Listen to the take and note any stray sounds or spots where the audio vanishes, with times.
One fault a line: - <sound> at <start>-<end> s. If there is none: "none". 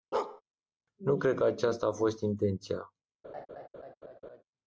- bark at 0.1-0.4 s
- laugh at 3.2-4.4 s